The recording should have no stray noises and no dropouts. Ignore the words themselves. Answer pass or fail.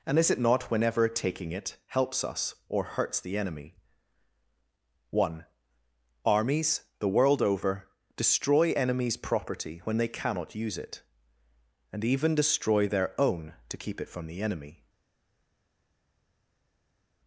pass